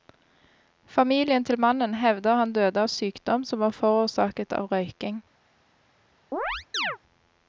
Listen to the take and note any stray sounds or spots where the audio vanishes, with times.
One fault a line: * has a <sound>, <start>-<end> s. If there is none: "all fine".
* has a chirp, 6.3-7.0 s